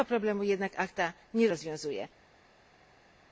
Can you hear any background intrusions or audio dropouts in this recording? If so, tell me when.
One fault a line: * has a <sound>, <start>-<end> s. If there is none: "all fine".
all fine